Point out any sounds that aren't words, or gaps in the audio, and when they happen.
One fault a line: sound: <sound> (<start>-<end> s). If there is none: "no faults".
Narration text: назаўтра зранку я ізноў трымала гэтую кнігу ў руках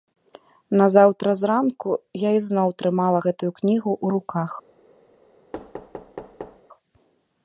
sound: thud (5.5-6.6 s)